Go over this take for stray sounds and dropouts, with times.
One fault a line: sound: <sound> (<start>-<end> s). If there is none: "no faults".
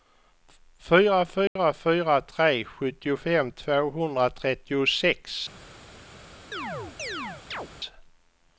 sound: dropout (1.5-1.6 s)
sound: chirp (6.5-7.7 s)